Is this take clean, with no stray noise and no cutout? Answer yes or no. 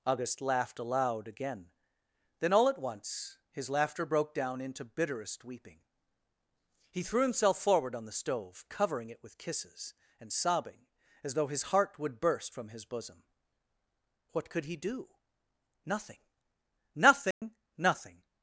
no